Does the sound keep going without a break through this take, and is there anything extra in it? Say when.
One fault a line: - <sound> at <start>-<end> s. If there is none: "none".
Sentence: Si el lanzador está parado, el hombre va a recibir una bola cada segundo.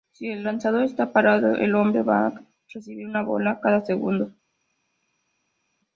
none